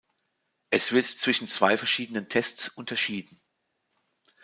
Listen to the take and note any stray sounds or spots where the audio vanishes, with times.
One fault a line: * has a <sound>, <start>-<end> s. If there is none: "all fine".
all fine